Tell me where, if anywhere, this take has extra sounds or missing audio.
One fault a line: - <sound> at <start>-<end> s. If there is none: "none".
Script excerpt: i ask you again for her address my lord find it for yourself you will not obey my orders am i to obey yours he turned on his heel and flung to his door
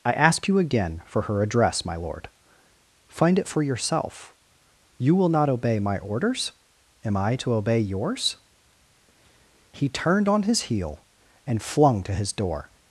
none